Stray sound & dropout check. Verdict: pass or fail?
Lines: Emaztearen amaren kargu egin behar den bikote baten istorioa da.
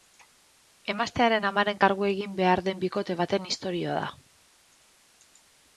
pass